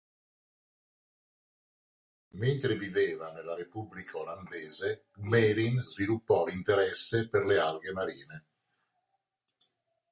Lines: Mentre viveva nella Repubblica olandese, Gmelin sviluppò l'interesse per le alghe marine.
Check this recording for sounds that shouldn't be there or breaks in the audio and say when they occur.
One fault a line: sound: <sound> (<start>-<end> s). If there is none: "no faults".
no faults